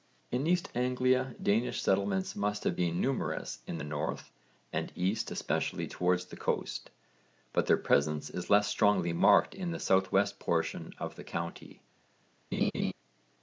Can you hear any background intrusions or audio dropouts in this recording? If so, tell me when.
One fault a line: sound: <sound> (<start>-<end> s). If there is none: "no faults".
sound: laugh (12.5-12.9 s)